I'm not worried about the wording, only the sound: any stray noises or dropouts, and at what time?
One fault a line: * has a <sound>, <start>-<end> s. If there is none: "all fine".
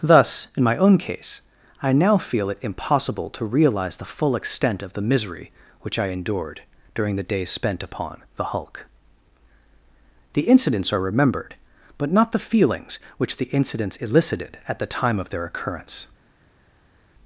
all fine